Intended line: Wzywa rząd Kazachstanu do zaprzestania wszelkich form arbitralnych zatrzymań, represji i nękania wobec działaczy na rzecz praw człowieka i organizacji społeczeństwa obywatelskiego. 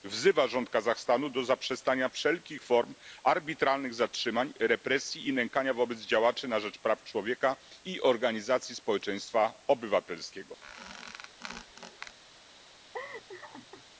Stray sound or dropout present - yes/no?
yes